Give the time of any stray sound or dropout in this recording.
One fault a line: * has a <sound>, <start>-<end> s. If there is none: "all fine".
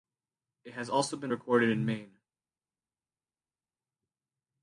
all fine